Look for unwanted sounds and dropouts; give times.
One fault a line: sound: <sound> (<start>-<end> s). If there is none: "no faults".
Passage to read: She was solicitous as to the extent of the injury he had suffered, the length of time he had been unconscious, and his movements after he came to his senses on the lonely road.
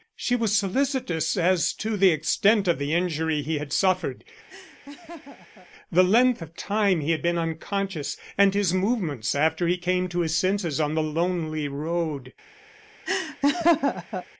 sound: laugh (4.5-5.7 s)
sound: laugh (13.1-14.3 s)